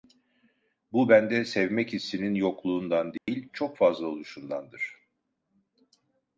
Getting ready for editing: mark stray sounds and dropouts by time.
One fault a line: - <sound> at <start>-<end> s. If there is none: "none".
- dropout at 3.2-3.3 s